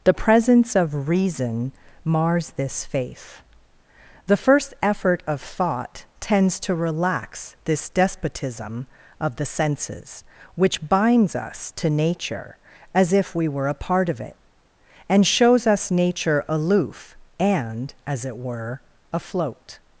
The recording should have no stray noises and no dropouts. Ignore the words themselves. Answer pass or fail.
pass